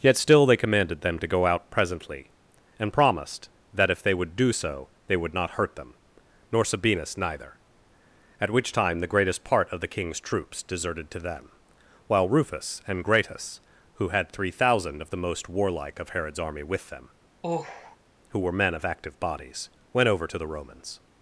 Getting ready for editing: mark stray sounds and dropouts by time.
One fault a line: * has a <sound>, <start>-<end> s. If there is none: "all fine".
* has a sigh, 17.4-18.0 s